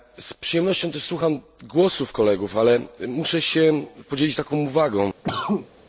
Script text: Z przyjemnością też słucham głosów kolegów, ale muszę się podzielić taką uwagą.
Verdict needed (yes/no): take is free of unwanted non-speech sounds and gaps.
no